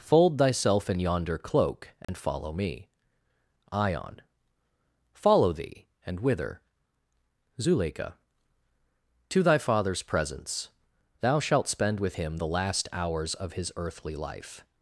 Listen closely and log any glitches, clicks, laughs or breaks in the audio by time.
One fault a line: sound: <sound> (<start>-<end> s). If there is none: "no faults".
sound: dropout (2.0-2.1 s)